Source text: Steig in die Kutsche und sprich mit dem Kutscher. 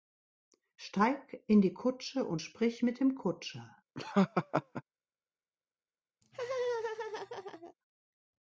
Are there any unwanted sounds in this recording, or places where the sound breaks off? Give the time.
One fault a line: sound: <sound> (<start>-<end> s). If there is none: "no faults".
sound: laugh (3.9-4.8 s)
sound: laugh (6.2-7.7 s)